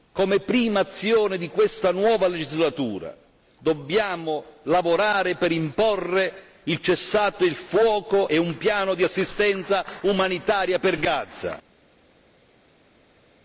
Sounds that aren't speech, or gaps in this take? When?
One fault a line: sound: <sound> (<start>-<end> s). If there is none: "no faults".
no faults